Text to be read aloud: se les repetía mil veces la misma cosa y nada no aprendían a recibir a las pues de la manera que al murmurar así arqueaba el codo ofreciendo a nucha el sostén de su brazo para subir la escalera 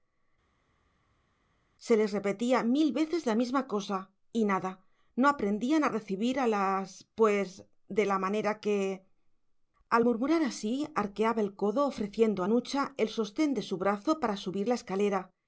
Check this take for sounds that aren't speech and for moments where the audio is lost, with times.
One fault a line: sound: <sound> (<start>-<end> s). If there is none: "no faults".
no faults